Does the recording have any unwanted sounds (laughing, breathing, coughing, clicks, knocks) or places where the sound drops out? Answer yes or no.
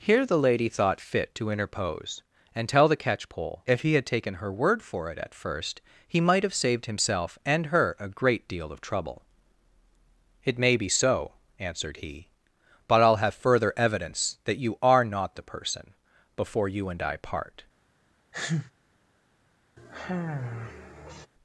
yes